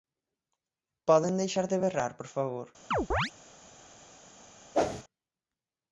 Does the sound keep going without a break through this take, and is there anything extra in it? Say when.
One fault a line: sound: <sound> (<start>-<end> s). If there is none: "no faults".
sound: chirp (2.9-3.3 s)
sound: whoosh (4.7-5.0 s)